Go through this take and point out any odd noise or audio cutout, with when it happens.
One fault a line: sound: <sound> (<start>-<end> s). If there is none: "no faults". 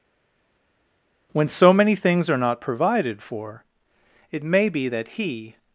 no faults